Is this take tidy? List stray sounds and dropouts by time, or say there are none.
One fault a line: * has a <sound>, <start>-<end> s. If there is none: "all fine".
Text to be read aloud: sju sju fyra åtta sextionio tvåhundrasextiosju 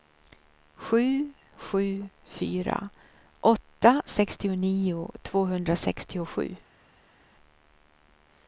all fine